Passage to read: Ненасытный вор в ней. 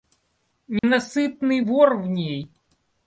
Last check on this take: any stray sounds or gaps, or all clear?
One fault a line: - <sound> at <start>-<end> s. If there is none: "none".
- dropout at 0.8-0.8 s